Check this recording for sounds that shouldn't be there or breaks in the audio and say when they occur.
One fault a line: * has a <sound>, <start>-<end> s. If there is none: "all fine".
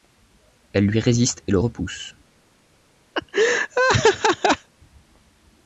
* has a laugh, 3.1-4.7 s